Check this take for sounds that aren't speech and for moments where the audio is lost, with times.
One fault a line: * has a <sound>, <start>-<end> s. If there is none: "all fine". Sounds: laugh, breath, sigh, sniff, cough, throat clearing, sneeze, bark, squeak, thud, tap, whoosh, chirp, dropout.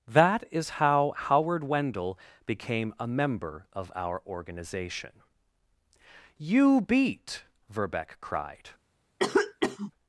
* has a cough, 9.2-9.9 s